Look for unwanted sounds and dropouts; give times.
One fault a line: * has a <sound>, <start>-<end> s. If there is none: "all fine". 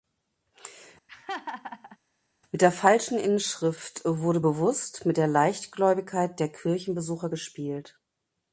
* has a laugh, 1.1-2.0 s